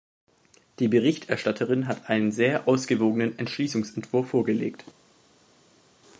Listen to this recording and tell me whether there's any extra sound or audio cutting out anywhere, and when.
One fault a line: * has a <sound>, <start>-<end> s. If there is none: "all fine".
all fine